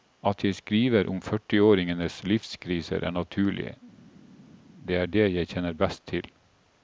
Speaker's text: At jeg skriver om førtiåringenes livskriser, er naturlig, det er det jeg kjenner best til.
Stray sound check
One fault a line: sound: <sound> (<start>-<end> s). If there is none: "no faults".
no faults